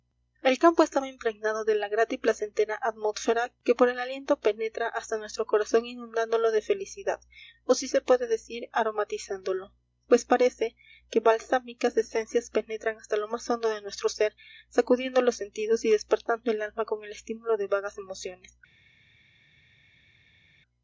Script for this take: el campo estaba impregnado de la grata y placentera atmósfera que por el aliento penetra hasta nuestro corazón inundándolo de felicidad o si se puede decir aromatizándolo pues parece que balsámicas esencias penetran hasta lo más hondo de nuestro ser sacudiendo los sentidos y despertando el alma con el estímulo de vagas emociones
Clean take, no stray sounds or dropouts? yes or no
yes